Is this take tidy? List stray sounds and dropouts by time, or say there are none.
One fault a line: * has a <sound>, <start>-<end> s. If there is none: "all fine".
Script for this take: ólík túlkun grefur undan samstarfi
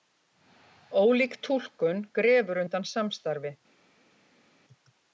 all fine